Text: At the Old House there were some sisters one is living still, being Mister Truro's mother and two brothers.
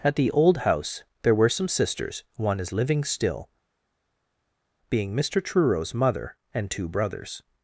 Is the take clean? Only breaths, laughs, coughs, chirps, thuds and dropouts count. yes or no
yes